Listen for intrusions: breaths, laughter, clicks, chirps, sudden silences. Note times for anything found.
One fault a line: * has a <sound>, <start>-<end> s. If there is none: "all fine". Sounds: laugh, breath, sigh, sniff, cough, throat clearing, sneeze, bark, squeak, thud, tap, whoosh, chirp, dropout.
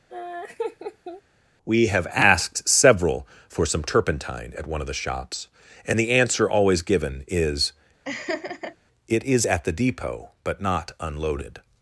* has a laugh, 0.1-1.2 s
* has a laugh, 8.0-8.8 s